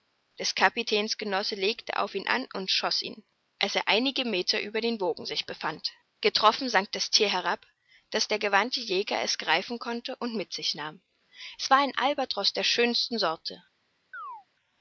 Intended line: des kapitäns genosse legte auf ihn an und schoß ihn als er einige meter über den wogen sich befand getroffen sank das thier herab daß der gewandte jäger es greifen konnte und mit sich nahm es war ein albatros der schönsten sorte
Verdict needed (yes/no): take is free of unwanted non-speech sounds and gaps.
no